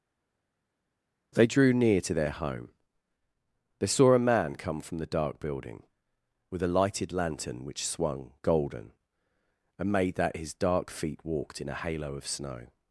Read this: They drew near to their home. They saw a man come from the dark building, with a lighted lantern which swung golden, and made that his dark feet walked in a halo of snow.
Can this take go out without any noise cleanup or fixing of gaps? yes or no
yes